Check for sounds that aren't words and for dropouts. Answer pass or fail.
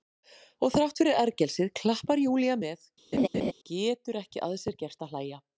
fail